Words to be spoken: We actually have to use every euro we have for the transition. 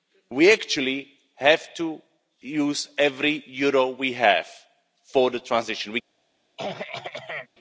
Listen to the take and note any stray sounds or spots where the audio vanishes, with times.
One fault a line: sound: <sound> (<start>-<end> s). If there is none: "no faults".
sound: throat clearing (6.6-7.5 s)